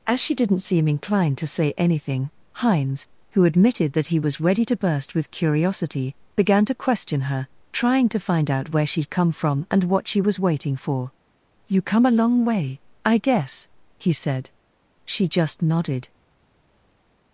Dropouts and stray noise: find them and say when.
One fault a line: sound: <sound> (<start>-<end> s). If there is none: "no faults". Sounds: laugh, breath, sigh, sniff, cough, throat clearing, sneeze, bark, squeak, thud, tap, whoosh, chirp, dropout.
no faults